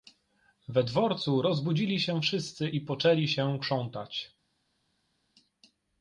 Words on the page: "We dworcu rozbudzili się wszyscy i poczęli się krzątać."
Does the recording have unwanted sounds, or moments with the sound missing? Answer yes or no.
no